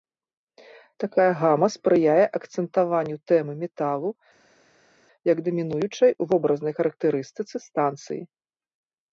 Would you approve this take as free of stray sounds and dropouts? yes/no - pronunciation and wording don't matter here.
yes